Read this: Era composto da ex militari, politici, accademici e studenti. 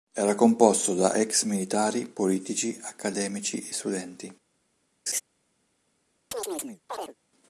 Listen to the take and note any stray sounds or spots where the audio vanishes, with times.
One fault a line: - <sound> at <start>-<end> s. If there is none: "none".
- laugh at 5.1-5.2 s
- chirp at 6.3-7.1 s